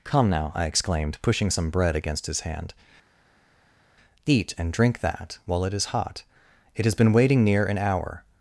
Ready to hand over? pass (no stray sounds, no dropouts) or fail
pass